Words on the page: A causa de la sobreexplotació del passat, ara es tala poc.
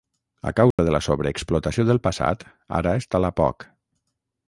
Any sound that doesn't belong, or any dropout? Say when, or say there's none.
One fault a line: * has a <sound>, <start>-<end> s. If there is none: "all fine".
* has a dropout, 0.7-0.8 s